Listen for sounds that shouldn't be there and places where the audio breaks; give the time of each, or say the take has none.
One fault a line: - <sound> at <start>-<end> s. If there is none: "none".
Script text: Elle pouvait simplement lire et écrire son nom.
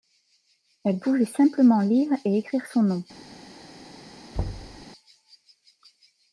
- thud at 4.3-4.9 s